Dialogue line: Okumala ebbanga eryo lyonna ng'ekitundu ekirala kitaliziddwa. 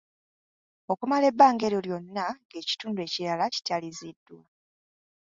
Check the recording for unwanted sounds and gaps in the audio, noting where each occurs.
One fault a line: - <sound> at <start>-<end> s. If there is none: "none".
none